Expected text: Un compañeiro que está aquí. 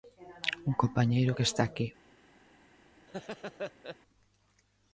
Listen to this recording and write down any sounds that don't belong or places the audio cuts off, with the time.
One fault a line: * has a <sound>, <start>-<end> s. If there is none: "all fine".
* has a laugh, 3.1-4.0 s